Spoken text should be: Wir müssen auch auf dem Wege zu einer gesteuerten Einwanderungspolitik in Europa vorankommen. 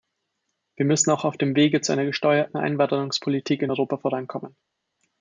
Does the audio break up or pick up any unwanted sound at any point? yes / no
no